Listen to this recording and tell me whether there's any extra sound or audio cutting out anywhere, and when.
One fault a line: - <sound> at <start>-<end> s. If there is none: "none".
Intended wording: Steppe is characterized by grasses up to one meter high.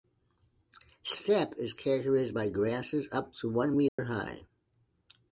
- dropout at 3.9-4.0 s